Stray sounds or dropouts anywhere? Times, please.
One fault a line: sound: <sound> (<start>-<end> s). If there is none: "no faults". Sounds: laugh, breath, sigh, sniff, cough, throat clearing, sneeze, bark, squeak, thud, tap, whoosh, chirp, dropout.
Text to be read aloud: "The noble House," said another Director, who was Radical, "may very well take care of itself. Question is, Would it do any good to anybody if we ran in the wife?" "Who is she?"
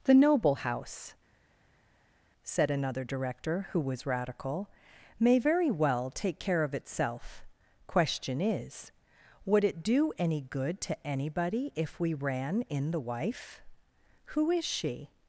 no faults